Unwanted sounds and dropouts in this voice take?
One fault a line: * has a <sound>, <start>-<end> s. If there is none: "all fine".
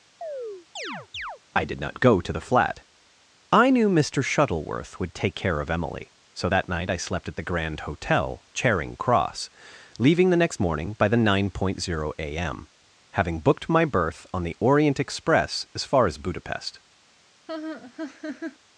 * has a chirp, 0.2-1.4 s
* has a laugh, 17.5-18.6 s